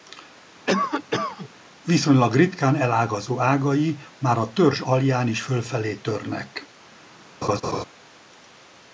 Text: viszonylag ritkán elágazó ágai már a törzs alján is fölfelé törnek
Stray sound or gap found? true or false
true